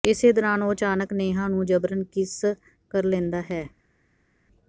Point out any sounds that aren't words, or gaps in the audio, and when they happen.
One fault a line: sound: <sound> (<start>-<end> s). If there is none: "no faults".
no faults